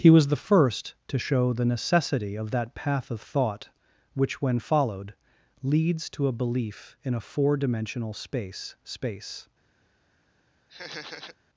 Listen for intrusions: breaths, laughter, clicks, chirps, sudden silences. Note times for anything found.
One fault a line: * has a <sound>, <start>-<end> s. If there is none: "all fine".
* has a laugh, 10.7-11.4 s